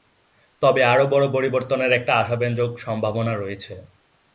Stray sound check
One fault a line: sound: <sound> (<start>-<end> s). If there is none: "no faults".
no faults